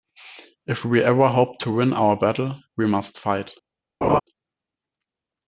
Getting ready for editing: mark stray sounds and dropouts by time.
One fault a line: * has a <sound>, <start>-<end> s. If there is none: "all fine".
* has a laugh, 4.0-4.2 s